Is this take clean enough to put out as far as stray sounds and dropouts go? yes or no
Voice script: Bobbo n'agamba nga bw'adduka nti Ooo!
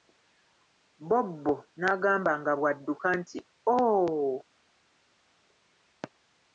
yes